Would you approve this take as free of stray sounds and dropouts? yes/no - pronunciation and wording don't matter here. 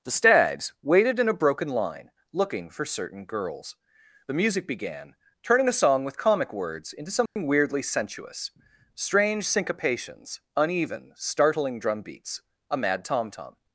no